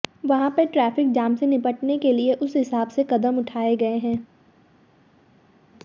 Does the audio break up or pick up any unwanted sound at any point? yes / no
no